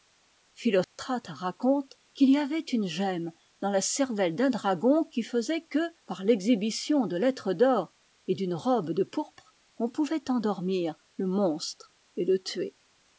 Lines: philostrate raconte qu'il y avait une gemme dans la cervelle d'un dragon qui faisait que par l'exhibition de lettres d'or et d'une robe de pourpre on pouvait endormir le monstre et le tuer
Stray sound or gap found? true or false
true